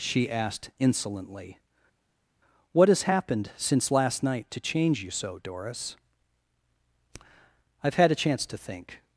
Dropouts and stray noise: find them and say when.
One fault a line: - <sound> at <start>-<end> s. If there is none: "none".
none